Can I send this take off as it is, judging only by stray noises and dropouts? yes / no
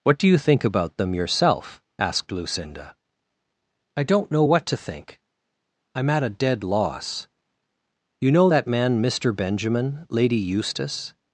yes